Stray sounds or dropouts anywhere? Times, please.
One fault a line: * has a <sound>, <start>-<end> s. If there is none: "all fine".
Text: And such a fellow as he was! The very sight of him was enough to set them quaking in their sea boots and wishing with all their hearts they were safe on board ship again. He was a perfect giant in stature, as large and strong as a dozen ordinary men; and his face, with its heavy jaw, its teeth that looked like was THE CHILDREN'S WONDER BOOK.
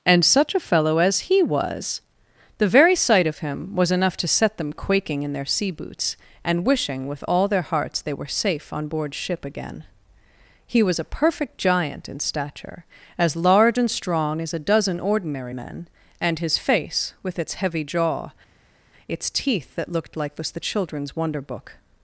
all fine